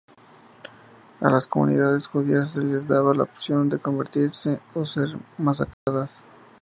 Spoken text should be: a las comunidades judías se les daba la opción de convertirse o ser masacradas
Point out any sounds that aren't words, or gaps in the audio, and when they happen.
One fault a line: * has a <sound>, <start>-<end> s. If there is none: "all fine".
* has a dropout, 5.7-5.9 s